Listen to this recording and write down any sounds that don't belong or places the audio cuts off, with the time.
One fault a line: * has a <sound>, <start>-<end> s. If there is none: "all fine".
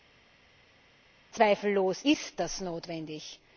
all fine